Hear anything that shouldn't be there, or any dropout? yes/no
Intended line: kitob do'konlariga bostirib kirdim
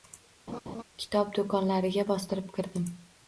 yes